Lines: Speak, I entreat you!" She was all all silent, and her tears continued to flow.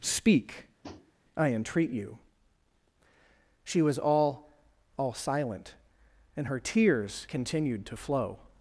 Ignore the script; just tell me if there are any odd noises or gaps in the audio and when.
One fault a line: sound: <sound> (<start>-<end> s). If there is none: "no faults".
sound: tap (0.8-1.1 s)